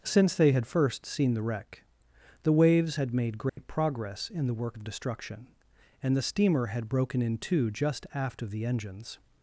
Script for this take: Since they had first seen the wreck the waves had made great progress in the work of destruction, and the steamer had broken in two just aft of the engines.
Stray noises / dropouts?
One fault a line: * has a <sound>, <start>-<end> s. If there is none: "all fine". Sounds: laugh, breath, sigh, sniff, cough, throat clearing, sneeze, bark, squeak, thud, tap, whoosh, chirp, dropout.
* has a dropout, 3.5-3.6 s